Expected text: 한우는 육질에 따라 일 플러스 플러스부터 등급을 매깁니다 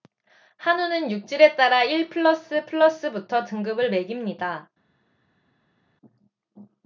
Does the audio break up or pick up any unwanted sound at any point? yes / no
no